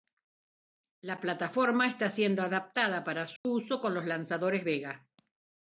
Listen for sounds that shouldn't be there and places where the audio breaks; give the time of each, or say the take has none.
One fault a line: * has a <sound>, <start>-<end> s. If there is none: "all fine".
* has a dropout, 3.4-3.4 s